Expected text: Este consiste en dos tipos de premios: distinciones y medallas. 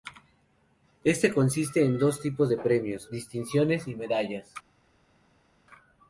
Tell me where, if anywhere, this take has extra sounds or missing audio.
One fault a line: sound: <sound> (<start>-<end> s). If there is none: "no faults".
no faults